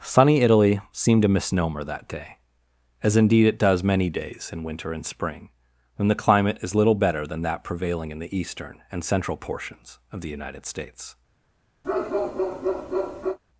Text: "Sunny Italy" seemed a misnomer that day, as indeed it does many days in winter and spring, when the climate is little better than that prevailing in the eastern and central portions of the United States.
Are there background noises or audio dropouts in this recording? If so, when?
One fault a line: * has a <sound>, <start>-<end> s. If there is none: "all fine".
* has a bark, 11.8-13.4 s